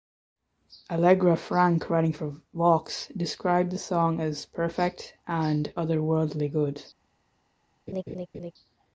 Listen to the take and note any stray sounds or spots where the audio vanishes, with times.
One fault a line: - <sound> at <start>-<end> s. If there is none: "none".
- laugh at 7.9-8.5 s